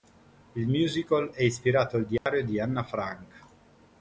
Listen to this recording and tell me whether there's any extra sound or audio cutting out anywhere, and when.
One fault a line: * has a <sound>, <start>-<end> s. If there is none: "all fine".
* has a dropout, 2.2-2.3 s